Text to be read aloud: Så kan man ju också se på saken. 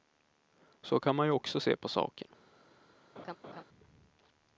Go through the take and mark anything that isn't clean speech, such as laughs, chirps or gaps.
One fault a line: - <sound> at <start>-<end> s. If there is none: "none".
- laugh at 3.2-3.6 s